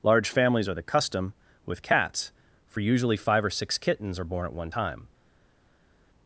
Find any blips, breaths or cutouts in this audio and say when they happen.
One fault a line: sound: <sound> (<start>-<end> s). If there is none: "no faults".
no faults